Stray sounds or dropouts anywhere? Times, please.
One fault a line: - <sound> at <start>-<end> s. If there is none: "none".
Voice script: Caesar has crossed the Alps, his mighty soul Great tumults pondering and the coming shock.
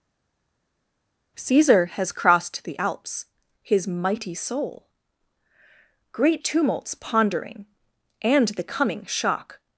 none